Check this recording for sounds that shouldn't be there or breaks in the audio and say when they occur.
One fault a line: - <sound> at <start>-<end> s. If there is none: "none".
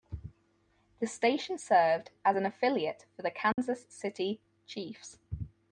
- dropout at 3.5-3.6 s